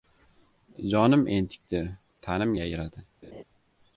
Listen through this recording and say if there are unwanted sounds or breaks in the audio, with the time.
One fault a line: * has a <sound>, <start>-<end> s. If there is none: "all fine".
* has a laugh, 3.2-3.4 s